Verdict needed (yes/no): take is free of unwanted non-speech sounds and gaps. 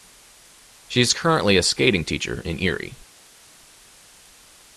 yes